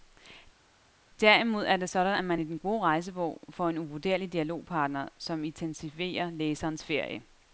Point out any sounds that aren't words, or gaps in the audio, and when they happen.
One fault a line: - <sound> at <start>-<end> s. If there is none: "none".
none